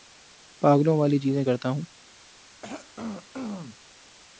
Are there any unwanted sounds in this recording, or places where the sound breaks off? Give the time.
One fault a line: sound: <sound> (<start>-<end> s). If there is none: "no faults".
sound: throat clearing (2.6-3.8 s)